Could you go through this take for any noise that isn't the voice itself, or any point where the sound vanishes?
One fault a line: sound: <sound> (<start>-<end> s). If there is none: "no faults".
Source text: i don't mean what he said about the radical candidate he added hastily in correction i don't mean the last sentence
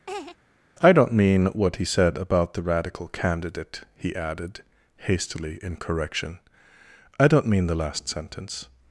sound: laugh (0.1-0.4 s)